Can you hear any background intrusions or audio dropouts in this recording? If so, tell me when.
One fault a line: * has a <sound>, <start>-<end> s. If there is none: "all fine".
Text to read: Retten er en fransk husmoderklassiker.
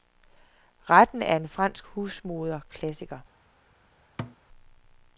* has a thud, 4.2-4.4 s